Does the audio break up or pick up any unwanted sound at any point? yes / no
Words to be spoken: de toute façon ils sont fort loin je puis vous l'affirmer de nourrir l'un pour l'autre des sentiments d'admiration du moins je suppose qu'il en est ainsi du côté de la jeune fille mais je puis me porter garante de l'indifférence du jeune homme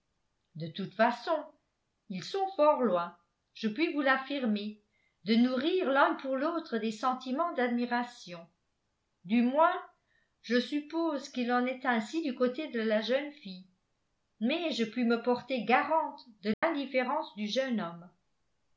yes